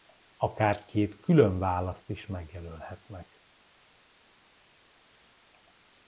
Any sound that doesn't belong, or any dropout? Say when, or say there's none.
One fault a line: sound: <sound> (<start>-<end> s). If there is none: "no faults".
no faults